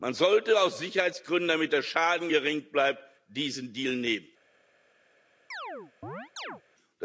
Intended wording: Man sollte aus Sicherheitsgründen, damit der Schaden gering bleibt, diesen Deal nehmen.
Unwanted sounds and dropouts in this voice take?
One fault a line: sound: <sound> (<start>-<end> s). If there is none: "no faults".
sound: chirp (5.5-6.6 s)